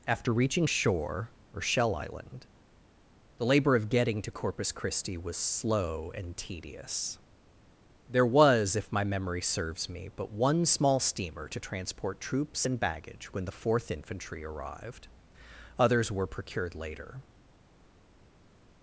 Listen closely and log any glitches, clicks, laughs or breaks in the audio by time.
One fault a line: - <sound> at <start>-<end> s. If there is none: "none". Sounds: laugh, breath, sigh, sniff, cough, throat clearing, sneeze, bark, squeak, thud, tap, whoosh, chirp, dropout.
none